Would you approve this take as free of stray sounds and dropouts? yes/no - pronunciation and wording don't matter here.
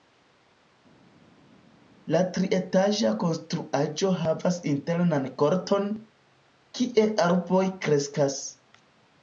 yes